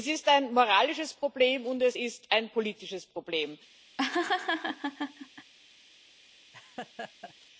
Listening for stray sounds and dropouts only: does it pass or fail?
fail